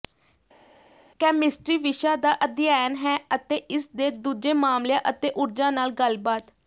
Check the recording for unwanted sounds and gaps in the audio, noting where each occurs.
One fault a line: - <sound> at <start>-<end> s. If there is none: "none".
none